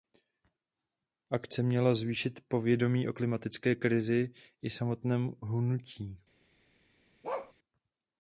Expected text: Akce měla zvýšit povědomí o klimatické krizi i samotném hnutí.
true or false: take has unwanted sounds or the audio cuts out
true